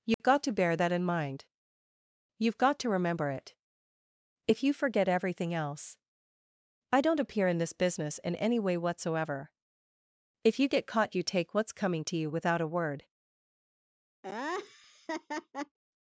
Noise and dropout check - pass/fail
fail